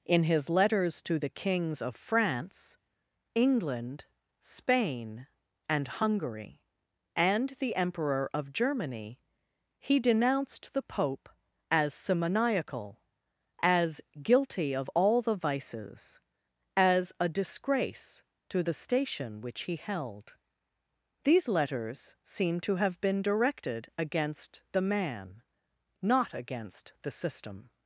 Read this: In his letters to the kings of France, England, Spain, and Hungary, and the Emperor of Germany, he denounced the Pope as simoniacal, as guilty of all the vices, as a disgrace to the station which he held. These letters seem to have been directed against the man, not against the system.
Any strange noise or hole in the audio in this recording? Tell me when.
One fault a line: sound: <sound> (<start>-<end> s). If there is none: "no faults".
no faults